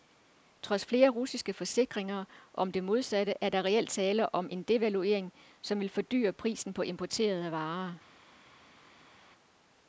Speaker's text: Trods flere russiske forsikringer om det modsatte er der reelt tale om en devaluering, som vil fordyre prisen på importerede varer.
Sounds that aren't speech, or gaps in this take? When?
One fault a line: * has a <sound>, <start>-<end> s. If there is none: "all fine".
all fine